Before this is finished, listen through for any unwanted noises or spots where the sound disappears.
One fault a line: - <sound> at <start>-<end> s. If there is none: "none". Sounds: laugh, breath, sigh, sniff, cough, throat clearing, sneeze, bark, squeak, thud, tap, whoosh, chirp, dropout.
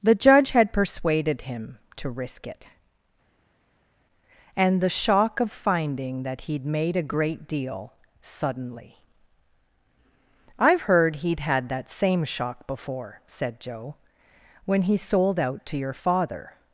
none